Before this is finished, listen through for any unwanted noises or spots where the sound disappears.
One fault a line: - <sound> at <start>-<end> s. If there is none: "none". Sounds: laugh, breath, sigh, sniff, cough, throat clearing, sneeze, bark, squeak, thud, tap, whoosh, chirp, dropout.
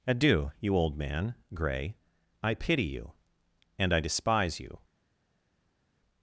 none